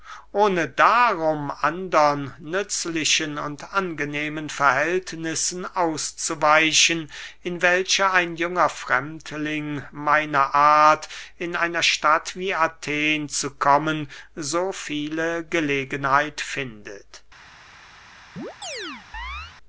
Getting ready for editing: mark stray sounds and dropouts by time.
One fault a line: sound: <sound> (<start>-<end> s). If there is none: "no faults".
sound: chirp (18.4-19.6 s)